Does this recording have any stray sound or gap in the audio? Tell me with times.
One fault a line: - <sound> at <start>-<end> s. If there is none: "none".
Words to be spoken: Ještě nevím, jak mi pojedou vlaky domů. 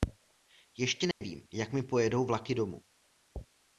- dropout at 1.1-1.2 s